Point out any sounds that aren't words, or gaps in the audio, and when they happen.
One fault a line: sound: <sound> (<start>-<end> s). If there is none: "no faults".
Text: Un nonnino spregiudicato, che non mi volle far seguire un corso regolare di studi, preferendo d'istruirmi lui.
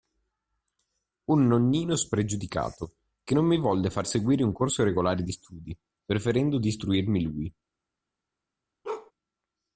sound: bark (8.8-9.1 s)